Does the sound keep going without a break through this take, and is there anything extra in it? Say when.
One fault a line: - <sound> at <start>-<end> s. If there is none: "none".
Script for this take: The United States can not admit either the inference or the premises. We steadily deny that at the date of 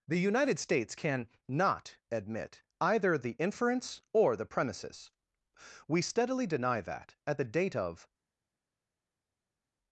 none